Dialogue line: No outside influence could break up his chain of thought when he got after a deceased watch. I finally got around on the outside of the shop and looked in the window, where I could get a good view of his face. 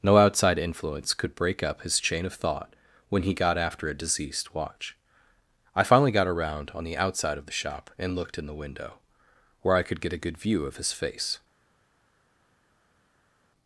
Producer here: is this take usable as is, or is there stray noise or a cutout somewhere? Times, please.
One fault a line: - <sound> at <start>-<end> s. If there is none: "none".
none